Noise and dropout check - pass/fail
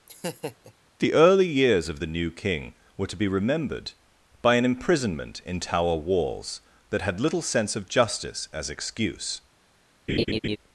fail